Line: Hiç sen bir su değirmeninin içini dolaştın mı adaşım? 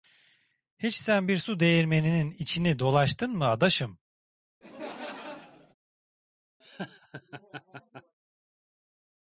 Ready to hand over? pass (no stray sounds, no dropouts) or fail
fail